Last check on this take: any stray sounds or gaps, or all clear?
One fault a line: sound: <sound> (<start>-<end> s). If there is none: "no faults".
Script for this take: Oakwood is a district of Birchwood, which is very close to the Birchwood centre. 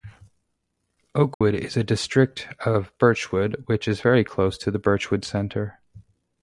sound: dropout (1.3-1.4 s)